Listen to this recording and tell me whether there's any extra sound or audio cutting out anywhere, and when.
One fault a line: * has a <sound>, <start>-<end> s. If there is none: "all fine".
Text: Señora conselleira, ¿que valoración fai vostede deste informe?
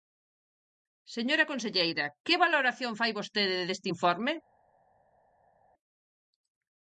all fine